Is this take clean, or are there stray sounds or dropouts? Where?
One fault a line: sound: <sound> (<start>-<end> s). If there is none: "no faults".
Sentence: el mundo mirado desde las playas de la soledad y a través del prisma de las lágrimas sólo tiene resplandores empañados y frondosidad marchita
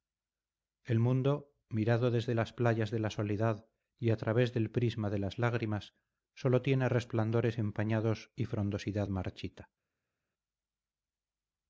no faults